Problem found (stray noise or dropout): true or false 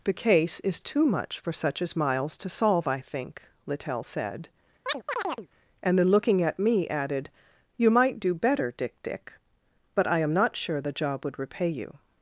true